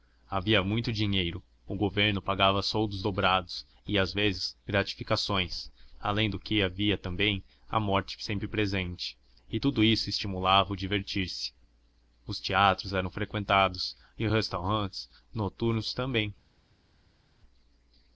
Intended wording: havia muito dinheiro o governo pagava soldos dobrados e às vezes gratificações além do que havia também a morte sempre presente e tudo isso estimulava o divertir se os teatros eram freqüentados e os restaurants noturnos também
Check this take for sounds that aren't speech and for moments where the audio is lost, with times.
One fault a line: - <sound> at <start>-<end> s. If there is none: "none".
none